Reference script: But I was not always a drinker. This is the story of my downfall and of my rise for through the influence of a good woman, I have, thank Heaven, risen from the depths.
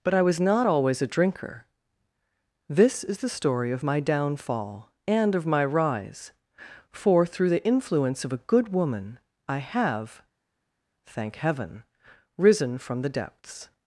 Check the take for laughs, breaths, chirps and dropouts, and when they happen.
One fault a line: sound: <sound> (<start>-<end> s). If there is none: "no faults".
no faults